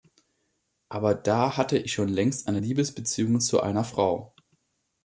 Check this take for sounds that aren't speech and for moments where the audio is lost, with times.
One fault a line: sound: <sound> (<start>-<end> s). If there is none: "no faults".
no faults